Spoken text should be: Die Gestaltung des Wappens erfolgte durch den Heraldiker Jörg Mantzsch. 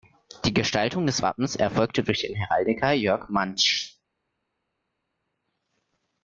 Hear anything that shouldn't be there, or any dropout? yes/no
no